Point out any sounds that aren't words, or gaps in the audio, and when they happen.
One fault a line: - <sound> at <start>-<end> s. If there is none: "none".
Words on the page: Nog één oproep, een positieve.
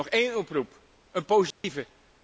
- dropout at 1.5-1.6 s